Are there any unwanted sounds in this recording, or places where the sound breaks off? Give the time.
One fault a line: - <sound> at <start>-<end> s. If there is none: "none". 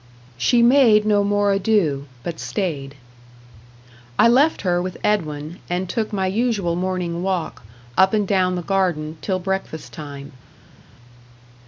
none